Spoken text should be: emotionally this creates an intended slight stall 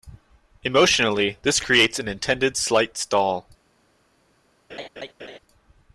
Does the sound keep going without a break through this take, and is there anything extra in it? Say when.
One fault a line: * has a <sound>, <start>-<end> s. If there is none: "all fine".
* has a laugh, 4.7-5.4 s